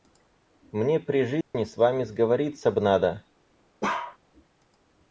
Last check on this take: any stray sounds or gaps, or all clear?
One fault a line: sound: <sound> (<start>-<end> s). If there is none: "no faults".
sound: dropout (1.4-1.5 s)
sound: bark (3.8-4.2 s)